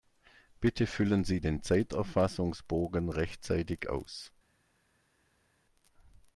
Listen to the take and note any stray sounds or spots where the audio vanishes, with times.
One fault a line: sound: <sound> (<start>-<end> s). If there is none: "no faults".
no faults